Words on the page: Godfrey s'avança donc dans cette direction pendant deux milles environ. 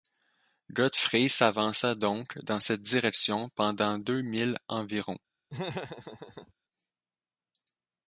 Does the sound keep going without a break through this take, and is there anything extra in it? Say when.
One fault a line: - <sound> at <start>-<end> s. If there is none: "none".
- laugh at 5.5-6.5 s